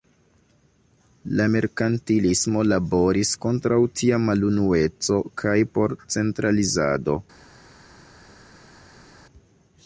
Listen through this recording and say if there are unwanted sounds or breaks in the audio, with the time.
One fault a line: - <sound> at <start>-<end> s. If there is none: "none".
none